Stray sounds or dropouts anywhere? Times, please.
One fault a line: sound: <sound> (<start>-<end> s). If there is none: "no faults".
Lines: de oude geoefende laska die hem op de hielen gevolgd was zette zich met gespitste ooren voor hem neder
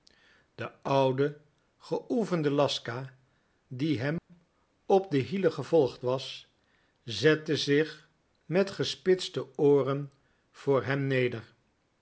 sound: dropout (4.2-4.3 s)